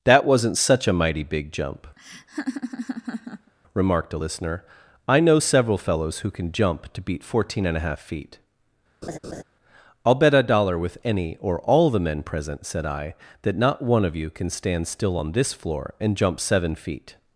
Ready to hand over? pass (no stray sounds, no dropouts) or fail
fail